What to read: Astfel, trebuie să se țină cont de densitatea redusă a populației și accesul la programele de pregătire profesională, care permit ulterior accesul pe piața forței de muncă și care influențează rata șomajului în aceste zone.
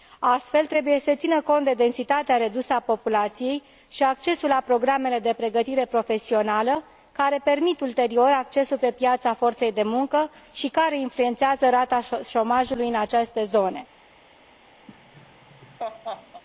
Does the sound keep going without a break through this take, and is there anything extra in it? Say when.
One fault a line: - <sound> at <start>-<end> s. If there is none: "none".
- laugh at 14.9-16.4 s